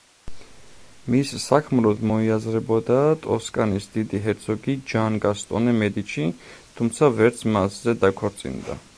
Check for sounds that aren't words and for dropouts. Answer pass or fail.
pass